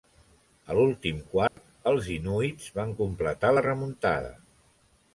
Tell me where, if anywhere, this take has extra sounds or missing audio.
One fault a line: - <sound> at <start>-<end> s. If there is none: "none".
- dropout at 1.5-1.6 s